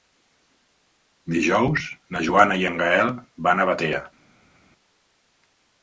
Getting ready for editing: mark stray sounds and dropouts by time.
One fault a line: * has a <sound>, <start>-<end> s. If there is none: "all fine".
all fine